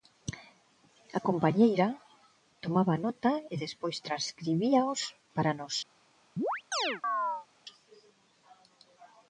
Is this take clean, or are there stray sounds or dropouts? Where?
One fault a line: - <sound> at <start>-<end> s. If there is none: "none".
- chirp at 6.4-7.5 s